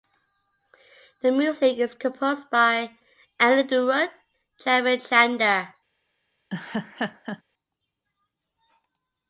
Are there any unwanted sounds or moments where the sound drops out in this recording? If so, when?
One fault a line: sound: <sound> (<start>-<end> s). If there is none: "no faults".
sound: laugh (6.5-7.4 s)